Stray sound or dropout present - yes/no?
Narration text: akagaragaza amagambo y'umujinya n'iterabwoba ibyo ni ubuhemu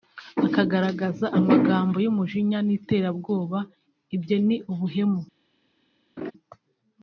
yes